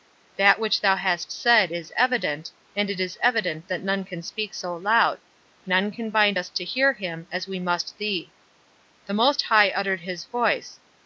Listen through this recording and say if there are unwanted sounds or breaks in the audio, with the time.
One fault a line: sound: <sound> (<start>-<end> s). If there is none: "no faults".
no faults